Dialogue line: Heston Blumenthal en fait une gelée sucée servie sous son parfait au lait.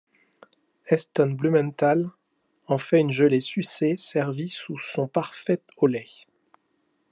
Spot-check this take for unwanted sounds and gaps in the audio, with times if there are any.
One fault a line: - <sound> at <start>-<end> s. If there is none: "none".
none